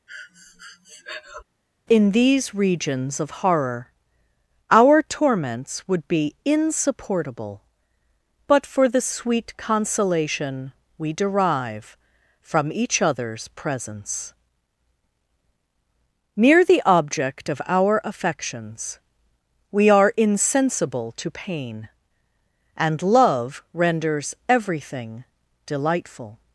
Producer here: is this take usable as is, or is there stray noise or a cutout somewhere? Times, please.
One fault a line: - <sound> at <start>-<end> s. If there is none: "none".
- breath at 0.1-1.4 s